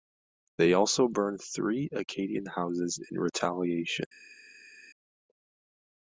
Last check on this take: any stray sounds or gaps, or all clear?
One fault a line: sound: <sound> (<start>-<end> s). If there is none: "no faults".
no faults